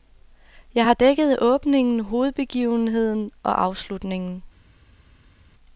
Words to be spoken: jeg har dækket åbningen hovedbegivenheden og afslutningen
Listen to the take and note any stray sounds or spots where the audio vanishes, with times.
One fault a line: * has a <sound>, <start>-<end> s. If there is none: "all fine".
all fine